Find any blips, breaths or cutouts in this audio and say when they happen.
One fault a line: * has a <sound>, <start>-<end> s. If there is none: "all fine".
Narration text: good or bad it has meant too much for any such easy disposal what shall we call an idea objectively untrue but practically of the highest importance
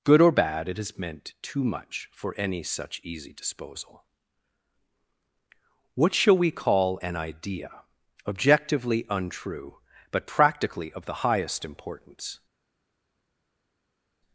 all fine